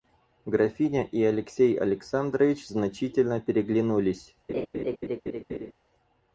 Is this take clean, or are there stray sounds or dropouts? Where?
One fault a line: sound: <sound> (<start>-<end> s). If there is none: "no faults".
sound: laugh (4.5-5.7 s)